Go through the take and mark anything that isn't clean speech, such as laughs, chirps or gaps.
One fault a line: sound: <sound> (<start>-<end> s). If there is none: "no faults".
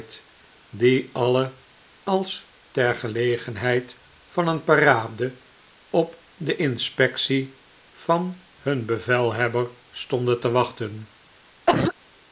sound: cough (11.7-11.9 s)